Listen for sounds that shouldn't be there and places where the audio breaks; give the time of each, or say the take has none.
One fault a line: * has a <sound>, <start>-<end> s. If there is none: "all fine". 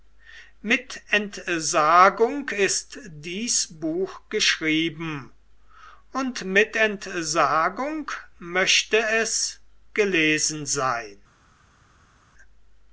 all fine